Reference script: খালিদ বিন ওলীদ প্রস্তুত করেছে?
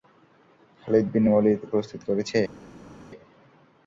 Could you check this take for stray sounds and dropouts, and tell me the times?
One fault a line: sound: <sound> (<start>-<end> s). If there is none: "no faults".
no faults